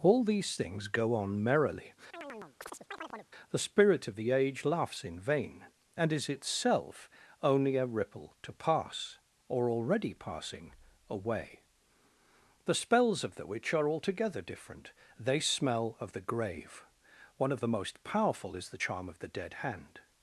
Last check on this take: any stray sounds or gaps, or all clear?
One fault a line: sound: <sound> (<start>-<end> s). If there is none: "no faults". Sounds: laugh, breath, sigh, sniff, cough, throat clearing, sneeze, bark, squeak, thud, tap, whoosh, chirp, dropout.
sound: chirp (2.1-3.3 s)